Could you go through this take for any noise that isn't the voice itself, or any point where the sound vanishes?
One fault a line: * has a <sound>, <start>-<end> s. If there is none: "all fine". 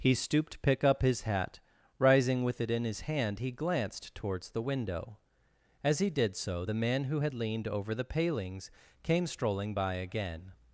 all fine